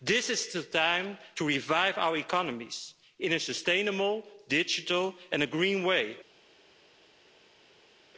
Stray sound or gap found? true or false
false